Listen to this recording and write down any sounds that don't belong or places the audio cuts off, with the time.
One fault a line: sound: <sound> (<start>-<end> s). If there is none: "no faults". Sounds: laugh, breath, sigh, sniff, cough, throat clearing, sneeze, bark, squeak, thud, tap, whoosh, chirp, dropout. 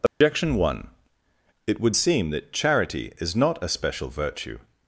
sound: dropout (0.1-0.2 s)